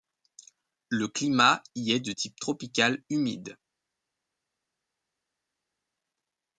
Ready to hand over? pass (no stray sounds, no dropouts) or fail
pass